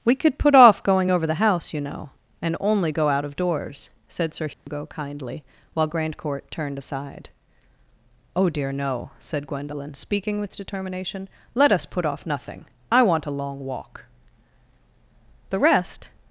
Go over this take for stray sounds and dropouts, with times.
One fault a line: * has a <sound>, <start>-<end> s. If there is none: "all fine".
* has a dropout, 4.5-4.7 s